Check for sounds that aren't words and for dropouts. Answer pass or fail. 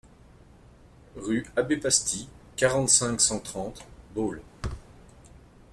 fail